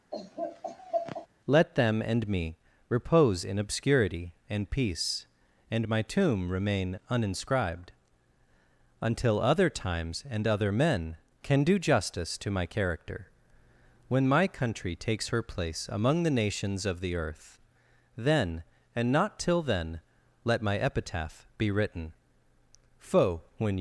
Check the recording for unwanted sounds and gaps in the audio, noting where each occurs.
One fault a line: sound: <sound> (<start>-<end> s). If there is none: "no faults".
sound: laugh (0.1-1.3 s)